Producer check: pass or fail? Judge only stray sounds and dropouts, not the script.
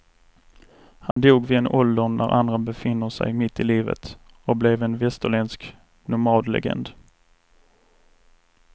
fail